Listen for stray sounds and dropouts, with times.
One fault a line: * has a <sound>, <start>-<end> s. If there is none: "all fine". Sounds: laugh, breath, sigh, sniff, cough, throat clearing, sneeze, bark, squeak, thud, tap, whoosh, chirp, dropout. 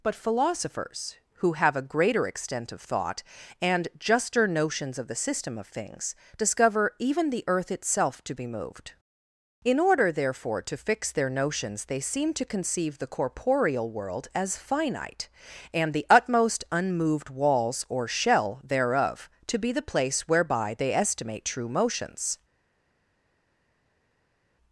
all fine